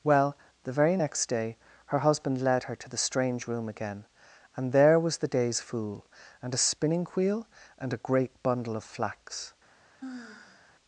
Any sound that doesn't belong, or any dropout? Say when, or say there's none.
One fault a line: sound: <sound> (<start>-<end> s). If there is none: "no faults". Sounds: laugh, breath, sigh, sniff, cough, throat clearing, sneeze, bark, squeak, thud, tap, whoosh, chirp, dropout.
sound: sigh (10.0-10.8 s)